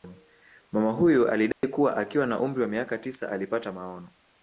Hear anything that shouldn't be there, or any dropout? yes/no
yes